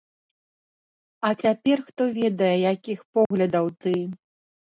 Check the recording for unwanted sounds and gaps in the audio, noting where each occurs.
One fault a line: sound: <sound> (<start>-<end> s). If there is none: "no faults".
sound: dropout (3.3-3.3 s)